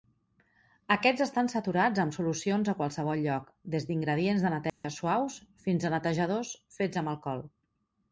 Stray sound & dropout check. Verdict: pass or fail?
fail